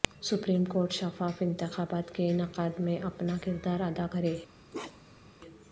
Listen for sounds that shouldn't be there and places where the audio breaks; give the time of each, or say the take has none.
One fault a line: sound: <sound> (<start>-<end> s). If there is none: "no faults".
sound: bark (4.7-5.3 s)